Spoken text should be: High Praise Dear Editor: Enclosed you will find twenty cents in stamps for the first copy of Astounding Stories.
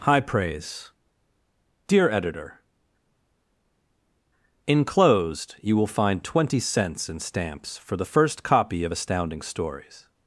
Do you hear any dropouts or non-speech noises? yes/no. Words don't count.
no